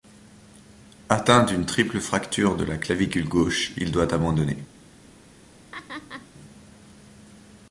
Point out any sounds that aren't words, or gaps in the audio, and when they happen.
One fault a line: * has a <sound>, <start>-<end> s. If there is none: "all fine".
* has a laugh, 5.7-6.3 s